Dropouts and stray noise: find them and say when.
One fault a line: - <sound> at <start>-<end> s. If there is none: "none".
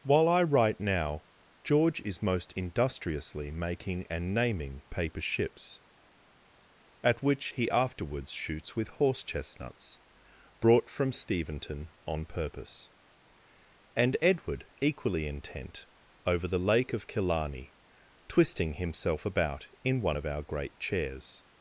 none